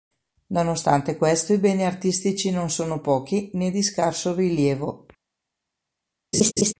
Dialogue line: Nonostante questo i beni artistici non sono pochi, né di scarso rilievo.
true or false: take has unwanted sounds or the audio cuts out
true